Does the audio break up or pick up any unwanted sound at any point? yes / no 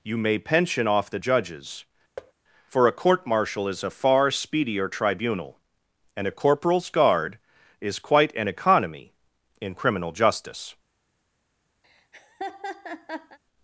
yes